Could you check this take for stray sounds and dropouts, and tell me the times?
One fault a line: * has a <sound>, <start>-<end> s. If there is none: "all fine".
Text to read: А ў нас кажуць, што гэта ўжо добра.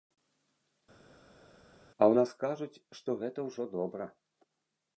all fine